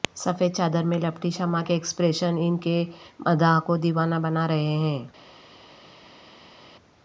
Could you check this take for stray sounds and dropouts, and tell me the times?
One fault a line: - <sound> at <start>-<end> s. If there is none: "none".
none